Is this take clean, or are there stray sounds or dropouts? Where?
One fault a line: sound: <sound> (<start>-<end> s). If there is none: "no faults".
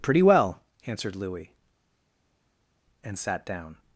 no faults